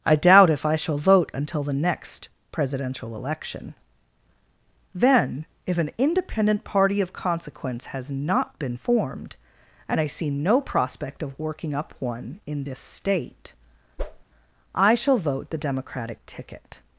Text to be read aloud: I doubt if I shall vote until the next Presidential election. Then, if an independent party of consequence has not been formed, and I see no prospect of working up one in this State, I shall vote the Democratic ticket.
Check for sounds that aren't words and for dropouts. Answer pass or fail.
fail